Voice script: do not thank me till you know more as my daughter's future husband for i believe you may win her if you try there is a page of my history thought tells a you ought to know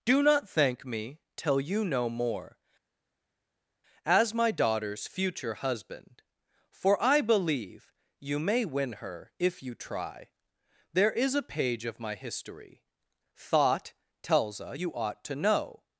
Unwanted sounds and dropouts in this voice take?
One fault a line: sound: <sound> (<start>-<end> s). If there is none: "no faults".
no faults